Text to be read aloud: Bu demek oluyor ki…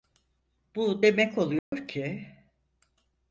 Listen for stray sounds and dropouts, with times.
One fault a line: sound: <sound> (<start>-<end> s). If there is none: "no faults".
sound: dropout (1.6-1.7 s)